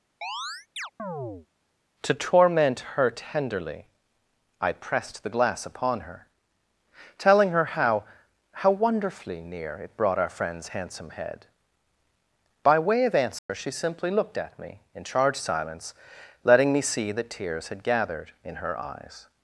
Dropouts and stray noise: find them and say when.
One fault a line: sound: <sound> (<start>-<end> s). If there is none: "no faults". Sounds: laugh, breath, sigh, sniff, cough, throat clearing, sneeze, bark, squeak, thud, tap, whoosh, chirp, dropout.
sound: chirp (0.2-1.5 s)
sound: dropout (13.4-13.5 s)